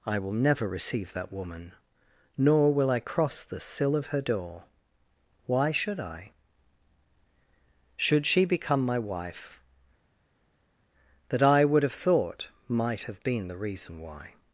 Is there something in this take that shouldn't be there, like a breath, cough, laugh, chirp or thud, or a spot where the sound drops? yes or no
no